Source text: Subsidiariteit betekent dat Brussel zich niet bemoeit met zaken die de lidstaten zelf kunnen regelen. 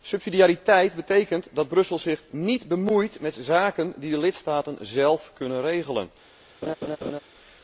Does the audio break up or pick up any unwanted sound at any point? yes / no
yes